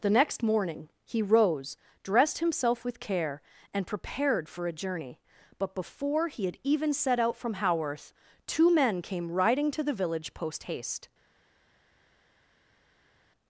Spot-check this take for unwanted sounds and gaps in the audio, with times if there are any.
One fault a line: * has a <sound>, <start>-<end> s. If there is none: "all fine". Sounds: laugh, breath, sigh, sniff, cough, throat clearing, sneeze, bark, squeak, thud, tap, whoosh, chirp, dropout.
all fine